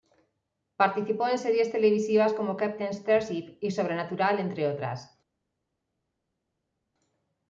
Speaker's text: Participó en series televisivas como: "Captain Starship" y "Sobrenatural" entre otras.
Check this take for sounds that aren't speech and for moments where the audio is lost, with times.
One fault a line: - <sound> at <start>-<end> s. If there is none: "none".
none